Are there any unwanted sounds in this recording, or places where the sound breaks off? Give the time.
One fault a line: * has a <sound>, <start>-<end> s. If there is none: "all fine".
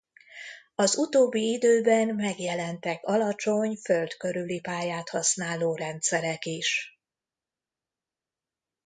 all fine